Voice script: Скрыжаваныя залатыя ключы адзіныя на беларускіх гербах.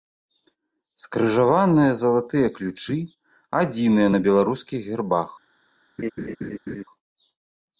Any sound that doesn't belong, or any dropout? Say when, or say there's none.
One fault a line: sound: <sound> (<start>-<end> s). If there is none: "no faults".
sound: laugh (6.0-6.8 s)